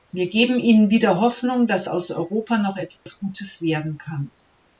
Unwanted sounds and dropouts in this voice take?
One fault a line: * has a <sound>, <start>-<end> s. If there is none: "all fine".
* has a dropout, 3.0-3.1 s